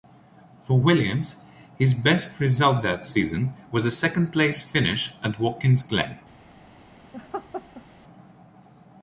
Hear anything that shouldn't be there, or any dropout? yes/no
yes